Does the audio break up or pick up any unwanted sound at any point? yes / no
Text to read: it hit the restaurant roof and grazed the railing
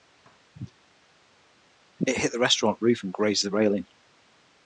no